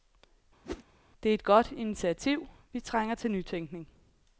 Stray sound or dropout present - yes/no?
yes